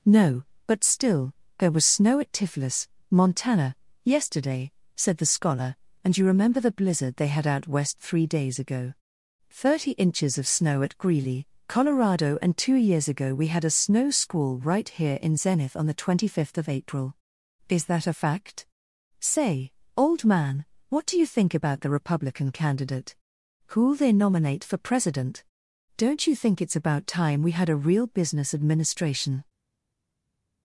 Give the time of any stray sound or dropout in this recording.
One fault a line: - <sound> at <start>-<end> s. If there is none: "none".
none